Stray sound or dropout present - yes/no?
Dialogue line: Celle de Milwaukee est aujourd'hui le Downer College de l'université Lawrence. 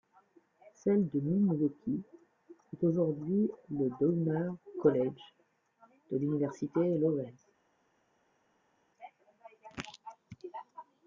no